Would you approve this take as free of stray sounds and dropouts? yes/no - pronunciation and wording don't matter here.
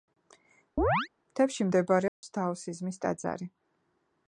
no